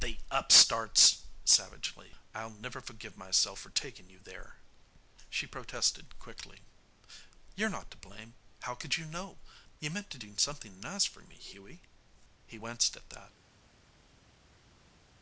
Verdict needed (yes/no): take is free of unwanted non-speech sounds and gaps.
yes